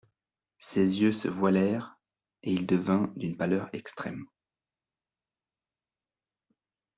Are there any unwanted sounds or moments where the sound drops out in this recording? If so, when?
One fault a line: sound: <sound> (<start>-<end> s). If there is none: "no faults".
no faults